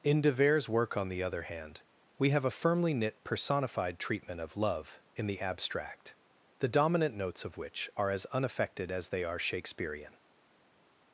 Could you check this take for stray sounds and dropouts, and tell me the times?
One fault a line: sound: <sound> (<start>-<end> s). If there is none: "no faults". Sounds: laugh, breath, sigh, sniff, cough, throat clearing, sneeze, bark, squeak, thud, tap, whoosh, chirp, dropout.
no faults